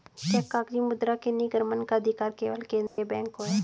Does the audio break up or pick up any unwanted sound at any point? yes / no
yes